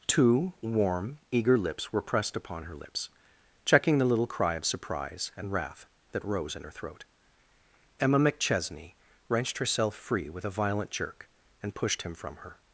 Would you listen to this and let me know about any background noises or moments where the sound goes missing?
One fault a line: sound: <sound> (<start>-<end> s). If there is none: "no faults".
no faults